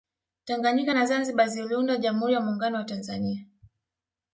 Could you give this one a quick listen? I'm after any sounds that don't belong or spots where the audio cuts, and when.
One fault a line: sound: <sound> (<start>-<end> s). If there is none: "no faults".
no faults